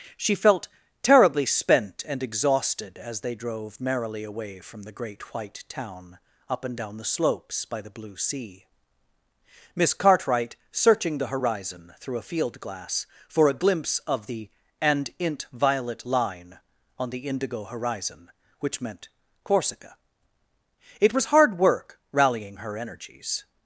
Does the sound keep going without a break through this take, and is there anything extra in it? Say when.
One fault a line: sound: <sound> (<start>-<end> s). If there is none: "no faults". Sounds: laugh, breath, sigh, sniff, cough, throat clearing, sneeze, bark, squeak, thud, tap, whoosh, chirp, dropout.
no faults